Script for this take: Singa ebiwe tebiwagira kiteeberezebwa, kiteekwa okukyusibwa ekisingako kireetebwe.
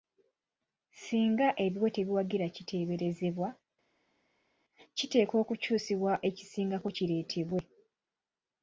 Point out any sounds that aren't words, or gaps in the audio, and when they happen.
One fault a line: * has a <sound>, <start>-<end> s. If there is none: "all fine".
all fine